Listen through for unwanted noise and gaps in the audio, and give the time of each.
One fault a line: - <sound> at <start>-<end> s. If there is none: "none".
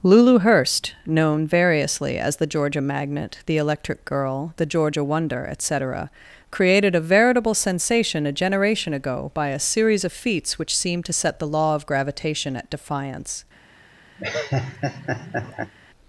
- laugh at 14.2-15.7 s